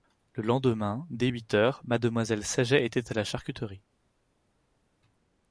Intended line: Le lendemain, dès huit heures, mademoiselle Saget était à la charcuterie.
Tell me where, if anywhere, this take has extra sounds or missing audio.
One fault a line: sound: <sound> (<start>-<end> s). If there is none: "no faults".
no faults